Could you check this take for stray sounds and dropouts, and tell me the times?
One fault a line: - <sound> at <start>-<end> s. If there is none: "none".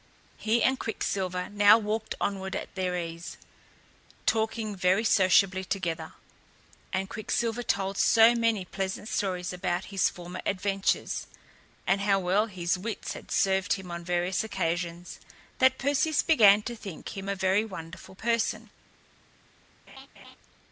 - laugh at 19.9-20.4 s